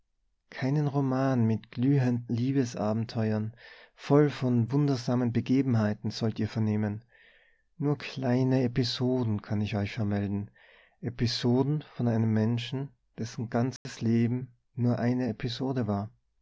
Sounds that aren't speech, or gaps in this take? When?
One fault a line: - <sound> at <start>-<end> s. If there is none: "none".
- dropout at 13.8-13.9 s